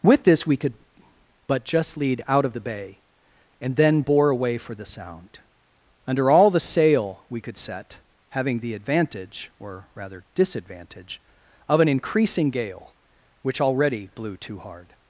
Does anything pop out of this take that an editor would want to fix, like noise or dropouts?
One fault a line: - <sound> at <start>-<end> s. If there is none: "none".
none